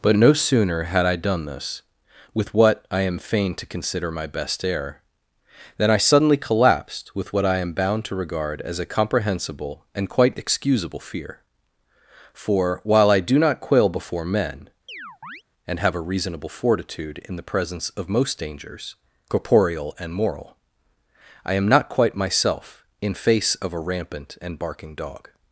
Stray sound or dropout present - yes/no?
yes